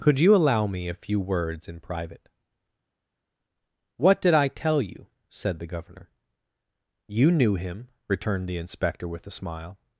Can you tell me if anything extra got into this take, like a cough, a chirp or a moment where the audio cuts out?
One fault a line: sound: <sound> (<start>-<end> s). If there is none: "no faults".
no faults